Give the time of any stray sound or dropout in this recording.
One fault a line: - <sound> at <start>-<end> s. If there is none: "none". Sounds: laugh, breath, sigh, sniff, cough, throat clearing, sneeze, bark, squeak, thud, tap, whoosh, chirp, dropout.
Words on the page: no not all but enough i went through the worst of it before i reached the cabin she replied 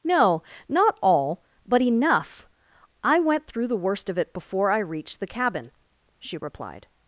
none